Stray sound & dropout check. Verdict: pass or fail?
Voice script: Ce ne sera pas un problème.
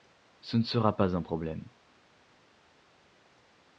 pass